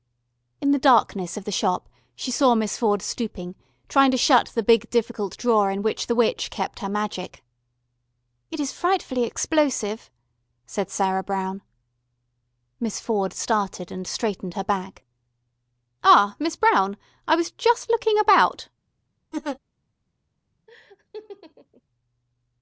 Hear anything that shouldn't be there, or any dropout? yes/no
yes